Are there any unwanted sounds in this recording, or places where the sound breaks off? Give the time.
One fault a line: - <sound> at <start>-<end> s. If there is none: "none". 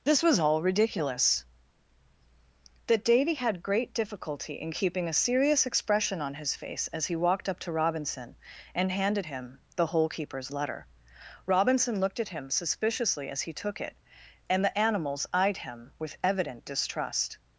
none